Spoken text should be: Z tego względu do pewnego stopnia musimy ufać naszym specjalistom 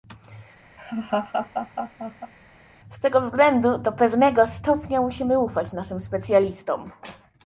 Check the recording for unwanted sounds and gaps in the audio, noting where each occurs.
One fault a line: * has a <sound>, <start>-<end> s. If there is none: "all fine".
* has a laugh, 0.8-2.3 s